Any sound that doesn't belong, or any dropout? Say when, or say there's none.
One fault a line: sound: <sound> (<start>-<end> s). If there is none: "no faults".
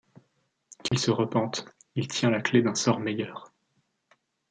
sound: dropout (0.9-0.9 s)